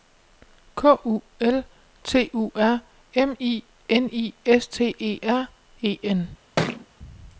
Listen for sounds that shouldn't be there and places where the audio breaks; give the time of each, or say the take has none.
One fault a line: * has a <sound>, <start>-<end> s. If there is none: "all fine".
* has a thud, 6.6-6.9 s